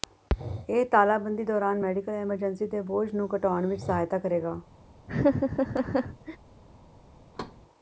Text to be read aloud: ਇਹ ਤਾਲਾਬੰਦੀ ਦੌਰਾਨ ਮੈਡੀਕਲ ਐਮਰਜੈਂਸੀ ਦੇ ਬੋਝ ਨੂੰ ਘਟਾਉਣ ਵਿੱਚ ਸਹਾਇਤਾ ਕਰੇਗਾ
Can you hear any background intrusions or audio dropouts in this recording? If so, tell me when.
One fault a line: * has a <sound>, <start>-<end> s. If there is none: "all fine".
* has a laugh, 5.1-6.4 s
* has a thud, 7.3-7.6 s